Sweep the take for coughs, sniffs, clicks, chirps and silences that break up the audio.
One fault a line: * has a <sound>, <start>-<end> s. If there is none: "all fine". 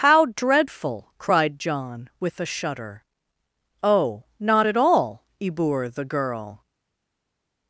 all fine